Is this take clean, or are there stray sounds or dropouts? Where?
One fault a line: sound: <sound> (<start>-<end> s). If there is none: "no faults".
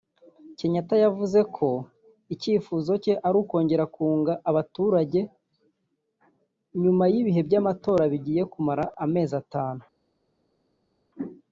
no faults